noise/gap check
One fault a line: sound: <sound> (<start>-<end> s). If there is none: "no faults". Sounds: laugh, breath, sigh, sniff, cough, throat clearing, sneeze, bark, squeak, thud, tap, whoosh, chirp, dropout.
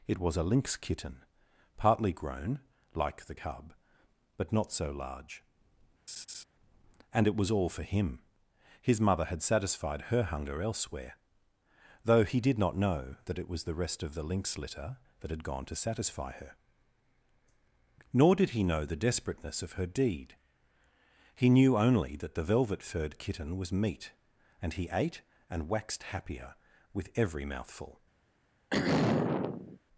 sound: laugh (6.1-6.4 s)
sound: throat clearing (28.7-29.8 s)